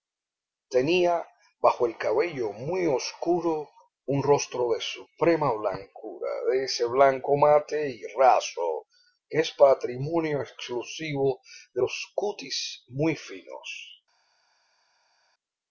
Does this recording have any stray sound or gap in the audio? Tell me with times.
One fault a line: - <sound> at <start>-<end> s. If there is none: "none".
none